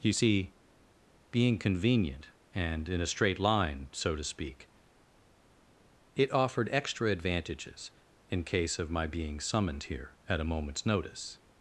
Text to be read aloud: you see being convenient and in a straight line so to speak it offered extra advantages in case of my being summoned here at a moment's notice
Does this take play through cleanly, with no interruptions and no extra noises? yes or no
yes